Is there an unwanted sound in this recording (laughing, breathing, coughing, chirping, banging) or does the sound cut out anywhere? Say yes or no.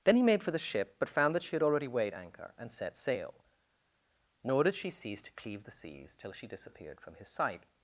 no